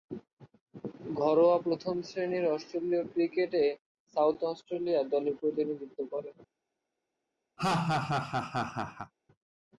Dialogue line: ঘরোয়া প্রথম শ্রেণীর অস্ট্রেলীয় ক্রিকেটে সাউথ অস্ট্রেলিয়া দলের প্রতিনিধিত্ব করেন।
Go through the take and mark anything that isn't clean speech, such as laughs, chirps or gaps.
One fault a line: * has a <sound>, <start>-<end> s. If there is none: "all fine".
* has a laugh, 7.6-9.1 s